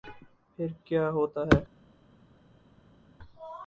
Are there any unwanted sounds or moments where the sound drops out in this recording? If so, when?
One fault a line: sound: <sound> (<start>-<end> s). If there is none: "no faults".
no faults